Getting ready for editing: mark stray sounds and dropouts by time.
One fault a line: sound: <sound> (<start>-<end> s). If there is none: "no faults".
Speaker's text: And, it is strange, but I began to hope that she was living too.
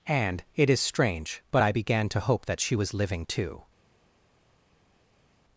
no faults